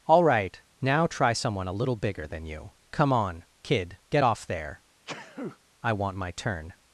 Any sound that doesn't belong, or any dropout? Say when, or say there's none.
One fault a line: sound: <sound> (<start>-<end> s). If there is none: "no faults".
sound: sneeze (5.1-5.6 s)